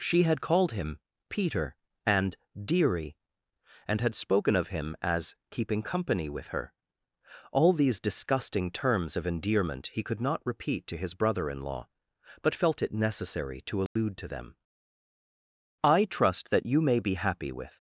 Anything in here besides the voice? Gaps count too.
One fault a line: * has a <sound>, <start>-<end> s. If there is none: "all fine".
* has a dropout, 13.9-14.0 s